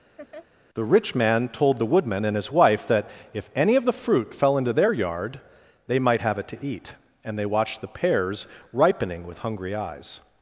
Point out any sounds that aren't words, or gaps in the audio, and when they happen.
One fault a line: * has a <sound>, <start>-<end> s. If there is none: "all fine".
* has a laugh, 0.2-0.5 s